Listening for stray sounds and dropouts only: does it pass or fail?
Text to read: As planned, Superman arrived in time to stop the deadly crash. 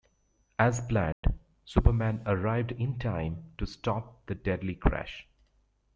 fail